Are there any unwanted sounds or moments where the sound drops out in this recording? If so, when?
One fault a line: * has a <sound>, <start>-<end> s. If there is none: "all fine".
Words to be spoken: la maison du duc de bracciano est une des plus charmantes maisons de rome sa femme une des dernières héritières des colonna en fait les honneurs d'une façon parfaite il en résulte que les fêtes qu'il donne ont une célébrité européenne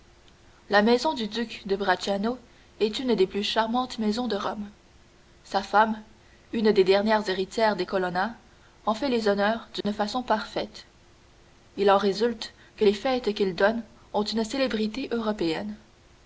* has a dropout, 9.8-9.8 s